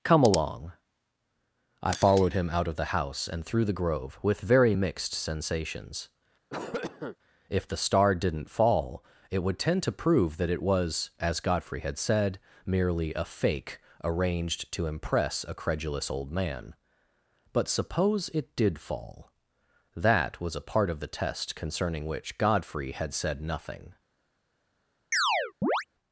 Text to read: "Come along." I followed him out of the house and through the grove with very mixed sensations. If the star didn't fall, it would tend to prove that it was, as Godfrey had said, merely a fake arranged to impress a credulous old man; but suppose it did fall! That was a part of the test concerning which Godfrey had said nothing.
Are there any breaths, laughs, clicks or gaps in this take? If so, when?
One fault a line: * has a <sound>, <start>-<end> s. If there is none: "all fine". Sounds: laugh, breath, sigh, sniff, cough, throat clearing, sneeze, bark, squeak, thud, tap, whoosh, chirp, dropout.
* has a cough, 6.5-7.2 s
* has a chirp, 25.1-25.8 s